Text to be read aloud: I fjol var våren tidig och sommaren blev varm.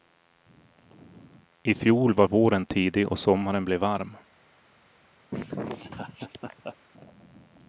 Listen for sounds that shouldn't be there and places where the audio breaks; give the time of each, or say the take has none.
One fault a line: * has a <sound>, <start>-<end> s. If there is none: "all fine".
* has a laugh, 5.3-6.8 s